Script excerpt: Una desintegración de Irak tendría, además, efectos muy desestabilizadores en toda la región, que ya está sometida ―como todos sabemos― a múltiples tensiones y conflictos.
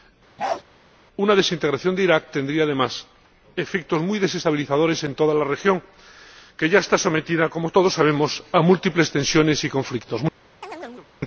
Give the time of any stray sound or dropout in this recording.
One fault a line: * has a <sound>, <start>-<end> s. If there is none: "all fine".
* has a bark, 0.4-0.6 s
* has a chirp, 10.6-11.1 s